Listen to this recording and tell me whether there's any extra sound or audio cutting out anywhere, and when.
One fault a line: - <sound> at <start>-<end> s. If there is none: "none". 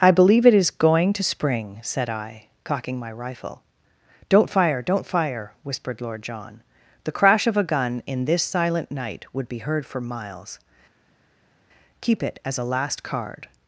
none